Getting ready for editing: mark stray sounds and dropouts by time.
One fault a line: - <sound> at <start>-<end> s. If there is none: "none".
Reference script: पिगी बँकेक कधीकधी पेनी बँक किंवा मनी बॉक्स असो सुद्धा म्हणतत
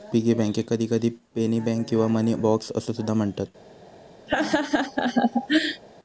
- laugh at 4.3-5.8 s